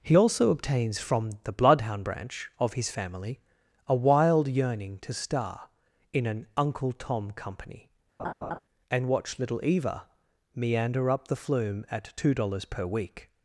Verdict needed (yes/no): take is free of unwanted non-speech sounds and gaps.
no